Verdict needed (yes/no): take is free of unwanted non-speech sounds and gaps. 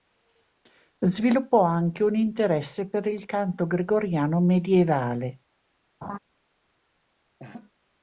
no